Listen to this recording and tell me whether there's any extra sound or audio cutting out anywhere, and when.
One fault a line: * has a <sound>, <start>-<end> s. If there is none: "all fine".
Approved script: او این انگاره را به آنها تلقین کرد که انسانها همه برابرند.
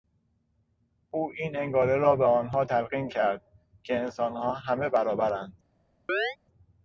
* has a chirp, 6.1-6.4 s